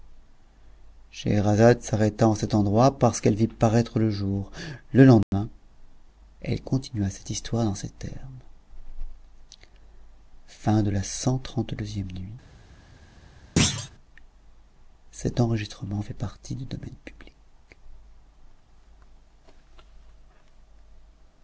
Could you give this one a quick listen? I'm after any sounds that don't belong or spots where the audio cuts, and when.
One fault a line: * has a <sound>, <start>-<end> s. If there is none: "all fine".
* has a dropout, 5.2-5.3 s
* has a thud, 13.6-13.9 s